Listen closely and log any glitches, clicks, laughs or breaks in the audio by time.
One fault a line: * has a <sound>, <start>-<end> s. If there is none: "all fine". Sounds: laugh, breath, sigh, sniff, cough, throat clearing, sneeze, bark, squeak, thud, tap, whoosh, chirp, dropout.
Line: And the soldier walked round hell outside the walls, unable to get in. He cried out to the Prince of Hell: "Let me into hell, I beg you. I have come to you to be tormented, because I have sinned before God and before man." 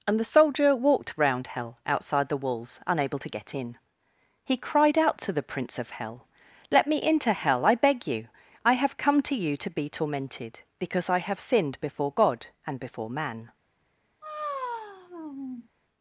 * has a sigh, 14.2-15.7 s